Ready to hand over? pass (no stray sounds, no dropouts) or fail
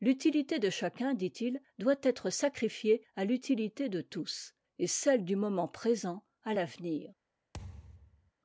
fail